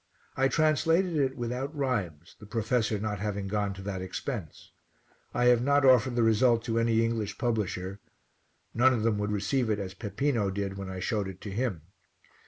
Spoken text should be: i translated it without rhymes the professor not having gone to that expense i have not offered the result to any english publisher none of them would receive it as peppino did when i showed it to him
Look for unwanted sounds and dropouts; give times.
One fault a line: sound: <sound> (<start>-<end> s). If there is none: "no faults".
no faults